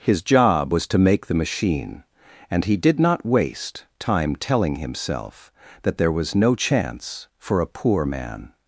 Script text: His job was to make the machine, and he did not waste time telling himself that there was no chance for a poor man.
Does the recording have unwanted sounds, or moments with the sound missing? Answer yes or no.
no